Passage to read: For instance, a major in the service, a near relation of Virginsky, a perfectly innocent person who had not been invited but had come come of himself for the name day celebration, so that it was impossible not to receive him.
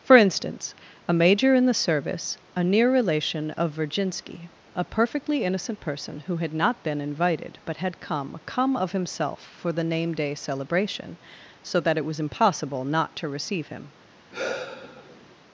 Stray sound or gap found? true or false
true